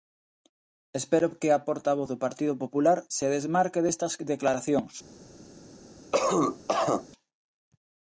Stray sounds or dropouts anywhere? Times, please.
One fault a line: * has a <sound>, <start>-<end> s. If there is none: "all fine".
* has a cough, 6.1-7.1 s